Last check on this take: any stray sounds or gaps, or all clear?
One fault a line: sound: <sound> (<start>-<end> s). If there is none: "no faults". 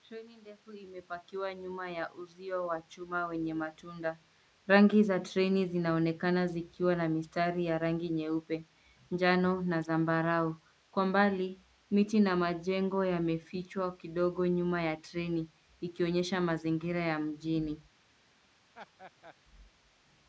sound: laugh (18.7-19.3 s)